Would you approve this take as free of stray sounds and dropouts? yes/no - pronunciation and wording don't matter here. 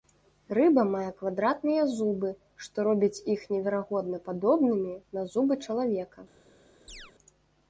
no